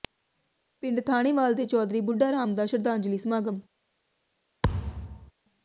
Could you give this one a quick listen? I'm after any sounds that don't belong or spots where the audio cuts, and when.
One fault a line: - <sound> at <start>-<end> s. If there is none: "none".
- thud at 4.6-5.3 s